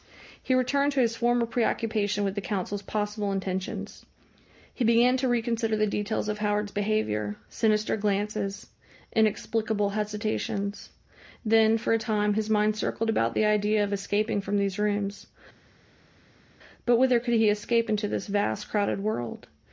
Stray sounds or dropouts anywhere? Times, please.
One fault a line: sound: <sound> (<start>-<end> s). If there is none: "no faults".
no faults